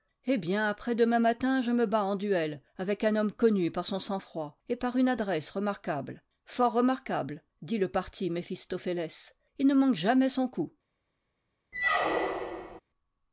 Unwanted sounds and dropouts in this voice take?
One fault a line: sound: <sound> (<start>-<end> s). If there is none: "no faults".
sound: squeak (11.7-12.8 s)